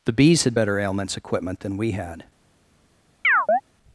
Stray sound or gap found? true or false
true